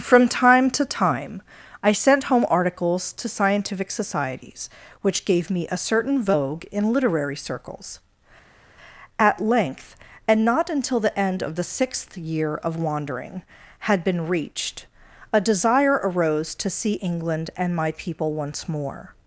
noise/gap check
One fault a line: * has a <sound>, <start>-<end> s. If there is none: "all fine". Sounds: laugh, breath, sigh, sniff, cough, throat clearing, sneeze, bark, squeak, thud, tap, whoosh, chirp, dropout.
all fine